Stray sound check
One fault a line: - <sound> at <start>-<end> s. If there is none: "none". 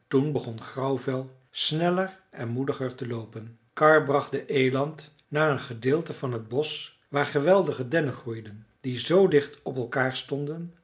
none